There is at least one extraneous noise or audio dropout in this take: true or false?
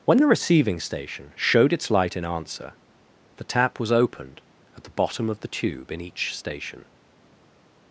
false